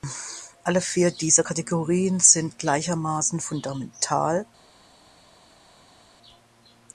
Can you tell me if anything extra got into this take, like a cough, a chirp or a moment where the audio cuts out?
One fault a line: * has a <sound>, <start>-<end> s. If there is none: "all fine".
all fine